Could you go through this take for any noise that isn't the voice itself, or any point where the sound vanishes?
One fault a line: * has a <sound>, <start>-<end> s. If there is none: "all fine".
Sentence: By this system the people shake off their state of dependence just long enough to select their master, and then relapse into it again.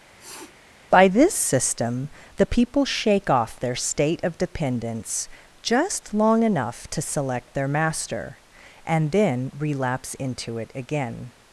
* has a sniff, 0.2-0.5 s